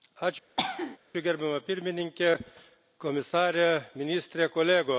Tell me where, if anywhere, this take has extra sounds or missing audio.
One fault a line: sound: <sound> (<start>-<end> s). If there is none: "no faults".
sound: cough (0.6-1.0 s)